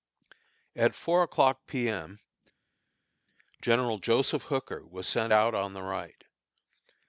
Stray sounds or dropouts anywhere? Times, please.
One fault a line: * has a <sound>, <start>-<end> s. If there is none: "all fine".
all fine